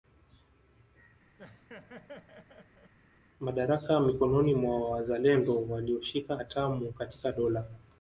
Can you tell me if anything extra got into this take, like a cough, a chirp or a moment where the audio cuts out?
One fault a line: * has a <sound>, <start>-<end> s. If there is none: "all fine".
* has a laugh, 1.4-2.9 s